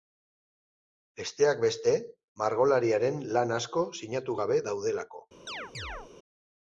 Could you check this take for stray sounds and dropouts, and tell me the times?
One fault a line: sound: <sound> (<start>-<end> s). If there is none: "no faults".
sound: chirp (5.5-6.1 s)